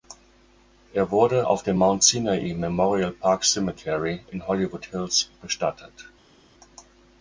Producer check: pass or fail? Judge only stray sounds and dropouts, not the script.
pass